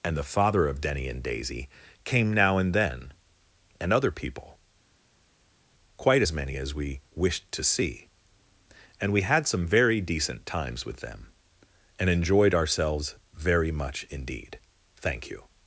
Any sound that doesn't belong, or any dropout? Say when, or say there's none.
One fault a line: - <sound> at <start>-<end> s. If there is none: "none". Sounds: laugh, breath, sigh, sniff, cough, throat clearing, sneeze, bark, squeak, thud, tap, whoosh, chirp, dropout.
none